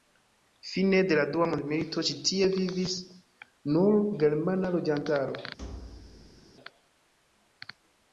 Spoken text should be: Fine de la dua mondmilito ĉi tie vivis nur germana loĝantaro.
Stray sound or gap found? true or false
true